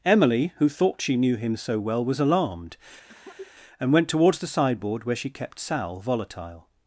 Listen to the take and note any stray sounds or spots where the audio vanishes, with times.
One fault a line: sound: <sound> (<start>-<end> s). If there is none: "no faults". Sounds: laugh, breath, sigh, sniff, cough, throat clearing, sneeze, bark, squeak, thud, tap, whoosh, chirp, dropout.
sound: cough (3.1-3.5 s)